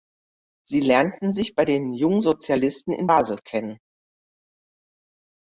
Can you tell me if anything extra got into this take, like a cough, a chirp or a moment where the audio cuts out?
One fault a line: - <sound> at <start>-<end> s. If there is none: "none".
none